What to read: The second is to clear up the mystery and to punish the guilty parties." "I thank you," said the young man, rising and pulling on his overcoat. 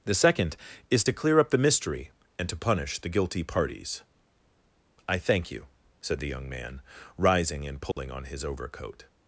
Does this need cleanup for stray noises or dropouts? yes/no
yes